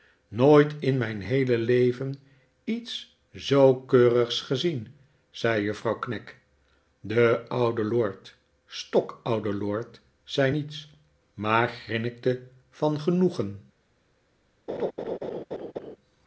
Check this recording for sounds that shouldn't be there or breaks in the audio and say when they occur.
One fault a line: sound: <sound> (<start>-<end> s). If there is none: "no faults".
sound: laugh (14.7-16.0 s)